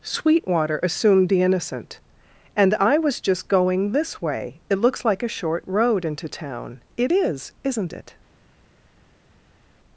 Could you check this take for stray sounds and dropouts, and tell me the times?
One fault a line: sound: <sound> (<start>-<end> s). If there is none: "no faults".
no faults